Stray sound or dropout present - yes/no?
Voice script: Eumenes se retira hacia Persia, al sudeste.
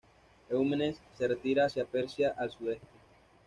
no